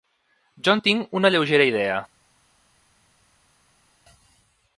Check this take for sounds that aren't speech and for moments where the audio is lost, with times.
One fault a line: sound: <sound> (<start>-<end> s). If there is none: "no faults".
no faults